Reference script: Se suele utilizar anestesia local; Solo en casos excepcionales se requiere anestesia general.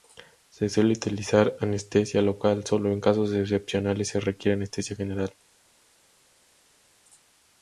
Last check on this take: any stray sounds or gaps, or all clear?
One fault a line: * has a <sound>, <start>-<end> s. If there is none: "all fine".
all fine